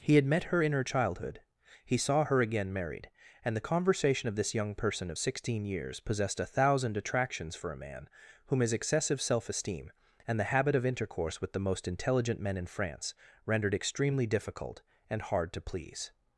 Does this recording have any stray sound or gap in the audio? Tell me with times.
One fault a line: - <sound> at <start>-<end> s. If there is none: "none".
none